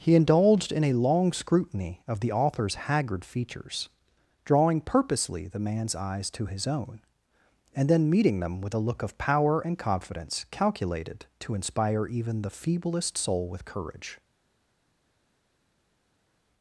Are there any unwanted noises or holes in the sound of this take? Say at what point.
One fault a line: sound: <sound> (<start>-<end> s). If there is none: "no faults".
no faults